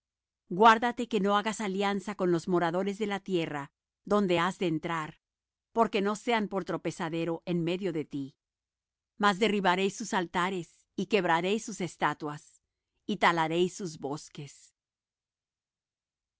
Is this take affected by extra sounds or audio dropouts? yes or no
no